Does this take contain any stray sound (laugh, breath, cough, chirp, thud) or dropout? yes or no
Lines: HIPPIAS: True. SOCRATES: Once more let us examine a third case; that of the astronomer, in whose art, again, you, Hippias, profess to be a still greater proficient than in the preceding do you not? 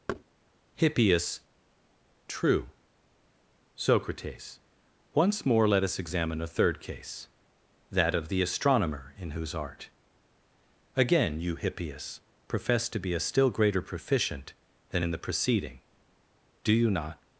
yes